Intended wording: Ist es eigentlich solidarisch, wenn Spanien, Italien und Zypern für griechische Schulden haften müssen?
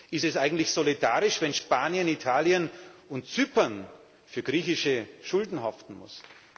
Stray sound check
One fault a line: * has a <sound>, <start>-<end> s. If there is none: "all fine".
all fine